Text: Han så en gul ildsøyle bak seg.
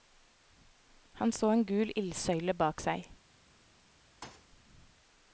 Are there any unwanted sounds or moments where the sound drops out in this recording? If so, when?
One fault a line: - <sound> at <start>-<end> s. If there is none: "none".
- thud at 4.2-4.5 s